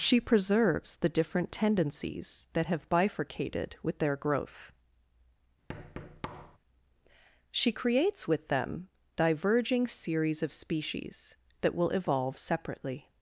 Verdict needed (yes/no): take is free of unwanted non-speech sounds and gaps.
no